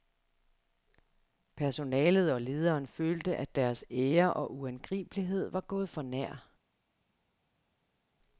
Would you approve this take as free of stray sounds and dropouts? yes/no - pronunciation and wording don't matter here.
yes